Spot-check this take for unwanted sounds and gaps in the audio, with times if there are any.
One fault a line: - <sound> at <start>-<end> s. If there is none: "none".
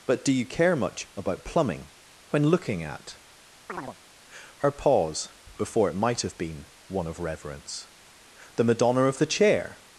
- chirp at 3.7-4.0 s